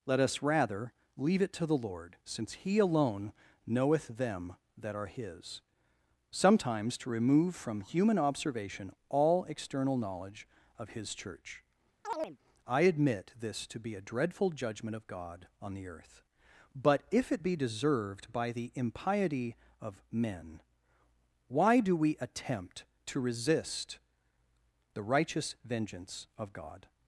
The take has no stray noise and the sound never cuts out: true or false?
false